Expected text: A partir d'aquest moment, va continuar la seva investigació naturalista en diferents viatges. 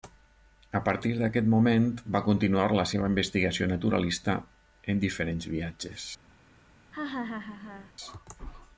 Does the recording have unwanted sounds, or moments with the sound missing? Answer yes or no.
yes